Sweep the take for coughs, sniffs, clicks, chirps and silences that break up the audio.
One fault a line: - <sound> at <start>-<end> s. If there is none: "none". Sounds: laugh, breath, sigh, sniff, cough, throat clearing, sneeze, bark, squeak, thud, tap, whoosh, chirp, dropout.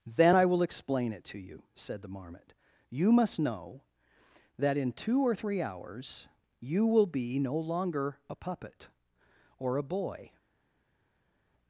none